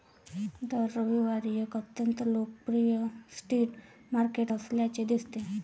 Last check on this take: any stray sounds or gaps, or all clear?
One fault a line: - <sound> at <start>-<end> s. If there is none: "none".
none